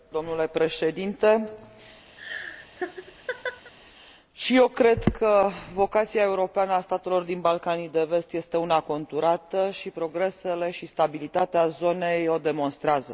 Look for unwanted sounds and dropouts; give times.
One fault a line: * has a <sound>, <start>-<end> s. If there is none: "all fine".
* has a laugh, 2.2-3.7 s